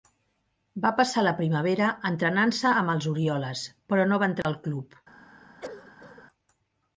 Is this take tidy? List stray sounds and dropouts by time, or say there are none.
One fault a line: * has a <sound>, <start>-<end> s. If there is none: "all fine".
* has a dropout, 4.4-4.4 s
* has a cough, 5.6-6.2 s